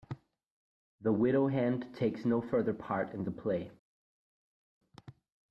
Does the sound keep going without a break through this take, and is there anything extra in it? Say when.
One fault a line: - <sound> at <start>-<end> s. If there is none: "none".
none